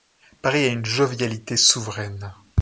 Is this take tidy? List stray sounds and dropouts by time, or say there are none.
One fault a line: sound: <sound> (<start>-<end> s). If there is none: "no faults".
no faults